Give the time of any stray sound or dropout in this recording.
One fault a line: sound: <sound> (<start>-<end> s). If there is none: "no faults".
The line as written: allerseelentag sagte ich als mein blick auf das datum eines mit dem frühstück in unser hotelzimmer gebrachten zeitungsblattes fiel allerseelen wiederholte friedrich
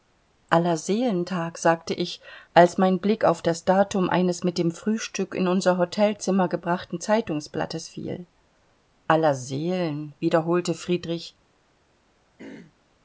sound: throat clearing (12.4-12.7 s)